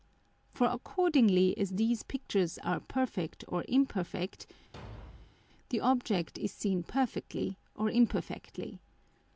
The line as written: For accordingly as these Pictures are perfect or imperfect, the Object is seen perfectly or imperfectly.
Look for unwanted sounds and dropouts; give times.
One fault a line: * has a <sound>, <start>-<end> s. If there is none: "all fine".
* has a thud, 4.7-5.4 s